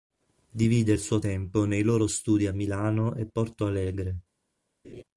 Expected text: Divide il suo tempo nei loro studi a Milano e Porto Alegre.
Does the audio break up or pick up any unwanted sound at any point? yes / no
yes